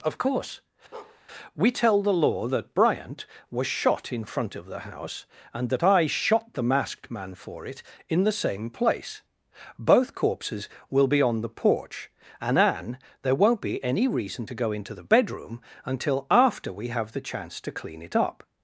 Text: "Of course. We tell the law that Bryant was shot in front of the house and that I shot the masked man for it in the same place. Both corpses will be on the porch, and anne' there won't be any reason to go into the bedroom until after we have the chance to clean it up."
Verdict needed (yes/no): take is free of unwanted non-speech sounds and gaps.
no